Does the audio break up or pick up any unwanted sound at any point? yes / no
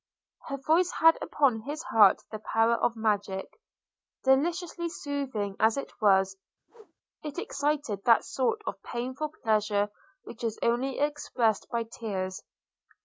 yes